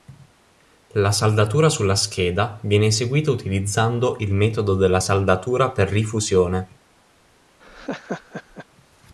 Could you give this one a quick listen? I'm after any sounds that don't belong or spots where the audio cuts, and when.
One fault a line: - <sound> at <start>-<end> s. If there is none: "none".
- laugh at 7.6-8.7 s